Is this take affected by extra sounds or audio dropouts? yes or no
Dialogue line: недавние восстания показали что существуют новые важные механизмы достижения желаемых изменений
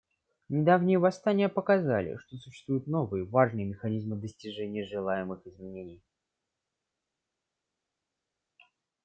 no